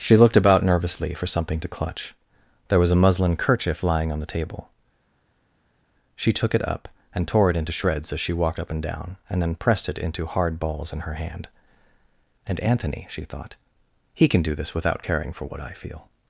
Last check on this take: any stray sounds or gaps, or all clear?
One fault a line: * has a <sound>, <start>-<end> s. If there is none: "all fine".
all fine